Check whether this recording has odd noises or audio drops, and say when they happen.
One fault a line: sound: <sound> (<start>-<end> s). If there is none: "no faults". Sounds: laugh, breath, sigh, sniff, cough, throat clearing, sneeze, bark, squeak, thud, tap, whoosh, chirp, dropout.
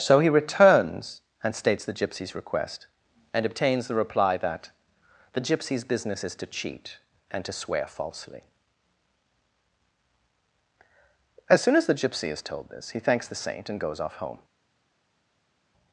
no faults